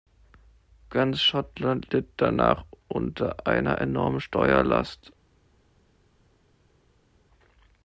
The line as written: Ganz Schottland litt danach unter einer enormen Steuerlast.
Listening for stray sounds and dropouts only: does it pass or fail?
pass